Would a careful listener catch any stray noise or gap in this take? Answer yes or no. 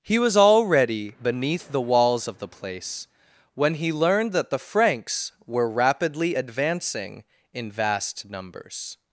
no